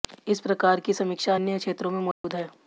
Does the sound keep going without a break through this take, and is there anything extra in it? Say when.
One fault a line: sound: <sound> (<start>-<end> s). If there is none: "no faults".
sound: dropout (2.1-2.2 s)